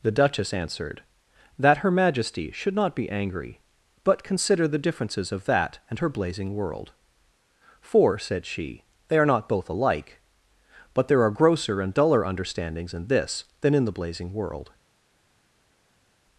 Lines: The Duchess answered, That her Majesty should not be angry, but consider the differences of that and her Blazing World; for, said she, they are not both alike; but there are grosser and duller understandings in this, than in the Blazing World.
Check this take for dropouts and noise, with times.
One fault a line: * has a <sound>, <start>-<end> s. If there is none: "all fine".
all fine